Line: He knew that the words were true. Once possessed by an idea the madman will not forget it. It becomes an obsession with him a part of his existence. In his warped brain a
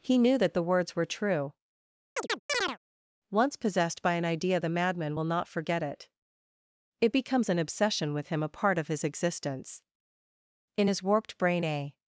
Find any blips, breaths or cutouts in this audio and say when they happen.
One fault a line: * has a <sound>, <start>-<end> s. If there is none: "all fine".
* has a chirp, 2.2-2.8 s